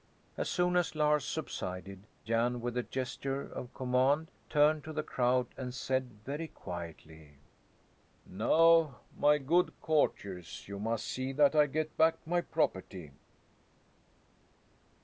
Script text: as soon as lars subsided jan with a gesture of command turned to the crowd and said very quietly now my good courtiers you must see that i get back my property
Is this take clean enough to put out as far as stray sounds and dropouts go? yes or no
yes